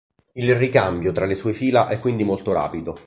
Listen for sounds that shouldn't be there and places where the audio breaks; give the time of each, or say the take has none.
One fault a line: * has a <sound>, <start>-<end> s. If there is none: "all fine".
all fine